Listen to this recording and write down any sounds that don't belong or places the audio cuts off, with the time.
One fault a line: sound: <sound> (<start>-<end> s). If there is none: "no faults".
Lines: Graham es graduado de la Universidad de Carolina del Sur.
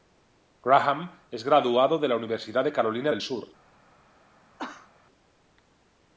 sound: cough (4.6-4.9 s)